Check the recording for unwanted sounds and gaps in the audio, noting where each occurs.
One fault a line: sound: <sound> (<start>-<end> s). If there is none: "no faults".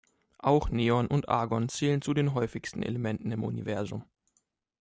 no faults